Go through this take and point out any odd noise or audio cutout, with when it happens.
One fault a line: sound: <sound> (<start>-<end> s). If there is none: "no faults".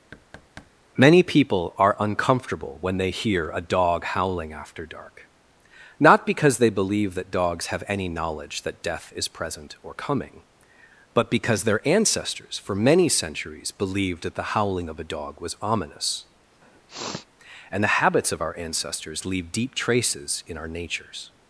sound: thud (0.1-0.7 s)
sound: sniff (16.6-17.3 s)